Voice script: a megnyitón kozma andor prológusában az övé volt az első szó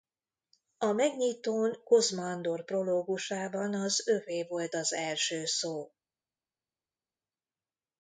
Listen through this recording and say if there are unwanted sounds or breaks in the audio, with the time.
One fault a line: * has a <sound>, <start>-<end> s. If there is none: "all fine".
all fine